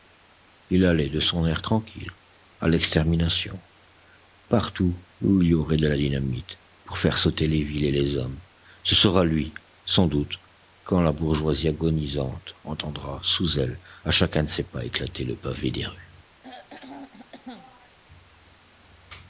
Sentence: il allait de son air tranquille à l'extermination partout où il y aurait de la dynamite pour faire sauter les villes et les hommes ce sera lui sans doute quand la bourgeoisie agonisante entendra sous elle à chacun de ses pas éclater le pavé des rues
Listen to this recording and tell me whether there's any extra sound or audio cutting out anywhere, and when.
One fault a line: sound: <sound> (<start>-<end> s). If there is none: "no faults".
sound: throat clearing (16.4-18.0 s)